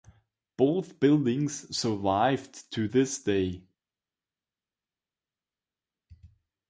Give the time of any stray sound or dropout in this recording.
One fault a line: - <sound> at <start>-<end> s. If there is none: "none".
none